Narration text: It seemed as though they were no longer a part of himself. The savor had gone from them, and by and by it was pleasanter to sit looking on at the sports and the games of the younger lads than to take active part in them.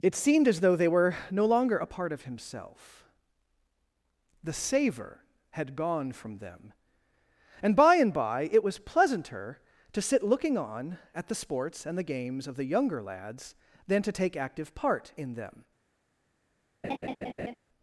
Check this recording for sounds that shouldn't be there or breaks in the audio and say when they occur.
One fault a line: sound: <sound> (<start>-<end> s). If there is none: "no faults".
sound: laugh (16.8-17.6 s)